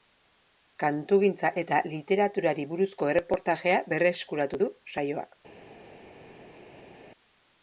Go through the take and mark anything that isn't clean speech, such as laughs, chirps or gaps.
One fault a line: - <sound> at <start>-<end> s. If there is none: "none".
none